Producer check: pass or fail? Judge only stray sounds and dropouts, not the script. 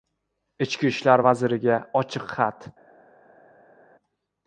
pass